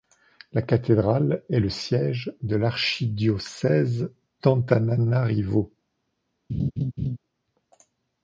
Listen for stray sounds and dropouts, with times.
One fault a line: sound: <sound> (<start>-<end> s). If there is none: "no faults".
sound: laugh (6.5-7.2 s)